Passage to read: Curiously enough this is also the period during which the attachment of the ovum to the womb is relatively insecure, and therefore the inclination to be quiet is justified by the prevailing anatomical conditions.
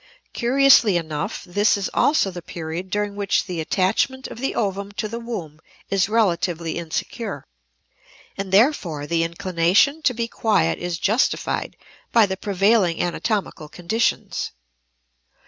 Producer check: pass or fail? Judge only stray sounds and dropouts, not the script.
pass